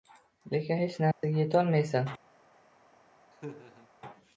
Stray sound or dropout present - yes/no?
yes